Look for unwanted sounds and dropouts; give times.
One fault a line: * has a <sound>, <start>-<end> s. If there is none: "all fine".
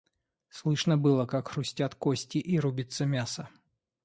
all fine